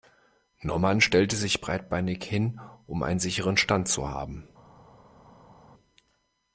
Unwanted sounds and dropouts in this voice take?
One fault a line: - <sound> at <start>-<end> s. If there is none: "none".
none